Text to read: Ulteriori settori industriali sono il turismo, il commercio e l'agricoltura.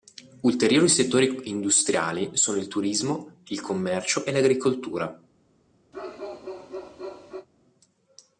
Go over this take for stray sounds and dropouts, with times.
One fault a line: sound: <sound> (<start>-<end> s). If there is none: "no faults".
sound: bark (5.9-7.5 s)